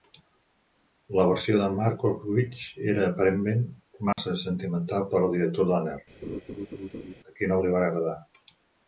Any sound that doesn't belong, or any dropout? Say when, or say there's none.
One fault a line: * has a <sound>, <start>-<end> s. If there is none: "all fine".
* has a dropout, 4.1-4.2 s
* has a laugh, 6.2-7.1 s